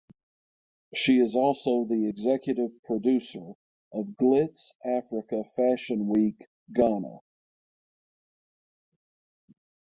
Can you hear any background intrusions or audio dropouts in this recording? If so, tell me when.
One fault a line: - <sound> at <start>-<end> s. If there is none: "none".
none